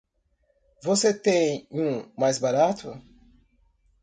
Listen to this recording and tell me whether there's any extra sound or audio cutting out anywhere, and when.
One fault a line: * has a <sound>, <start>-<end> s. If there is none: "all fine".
all fine